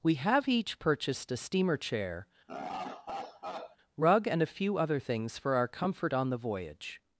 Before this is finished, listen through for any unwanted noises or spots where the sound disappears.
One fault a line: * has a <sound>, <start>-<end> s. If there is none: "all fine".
* has a laugh, 2.5-3.8 s